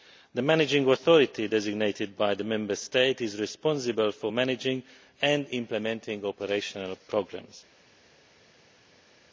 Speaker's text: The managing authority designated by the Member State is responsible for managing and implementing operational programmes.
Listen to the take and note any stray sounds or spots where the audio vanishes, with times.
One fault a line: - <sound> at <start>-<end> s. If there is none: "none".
none